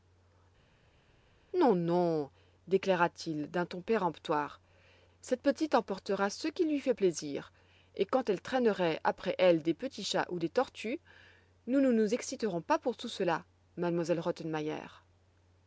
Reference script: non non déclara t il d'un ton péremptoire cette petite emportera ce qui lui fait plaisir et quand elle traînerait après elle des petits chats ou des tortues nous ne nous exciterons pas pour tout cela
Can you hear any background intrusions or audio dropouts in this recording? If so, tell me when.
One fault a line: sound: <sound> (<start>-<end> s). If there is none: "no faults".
no faults